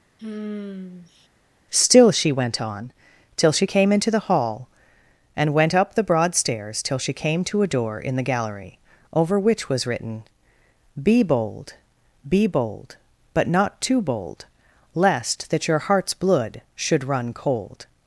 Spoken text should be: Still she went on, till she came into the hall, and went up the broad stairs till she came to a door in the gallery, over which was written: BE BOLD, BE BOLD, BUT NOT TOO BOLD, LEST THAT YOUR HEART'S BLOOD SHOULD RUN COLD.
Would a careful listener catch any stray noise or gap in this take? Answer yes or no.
yes